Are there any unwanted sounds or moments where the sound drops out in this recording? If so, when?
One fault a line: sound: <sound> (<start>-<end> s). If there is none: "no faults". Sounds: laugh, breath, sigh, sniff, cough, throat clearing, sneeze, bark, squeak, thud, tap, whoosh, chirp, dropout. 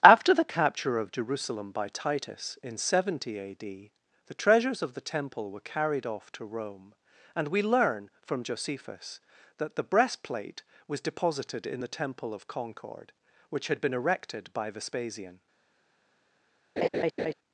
sound: laugh (16.8-17.3 s)